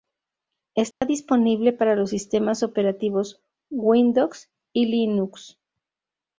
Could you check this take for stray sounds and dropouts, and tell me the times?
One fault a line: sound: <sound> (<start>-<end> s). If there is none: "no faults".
sound: dropout (0.9-1.0 s)